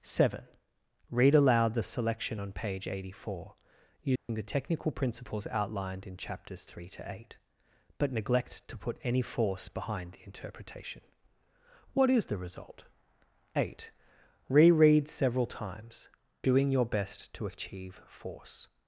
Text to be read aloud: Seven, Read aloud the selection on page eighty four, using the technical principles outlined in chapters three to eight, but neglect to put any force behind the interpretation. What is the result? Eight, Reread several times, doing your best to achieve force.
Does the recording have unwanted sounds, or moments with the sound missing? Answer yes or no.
yes